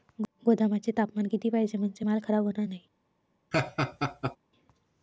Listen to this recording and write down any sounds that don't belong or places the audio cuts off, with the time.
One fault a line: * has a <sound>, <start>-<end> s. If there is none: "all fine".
* has a laugh, 3.5-4.4 s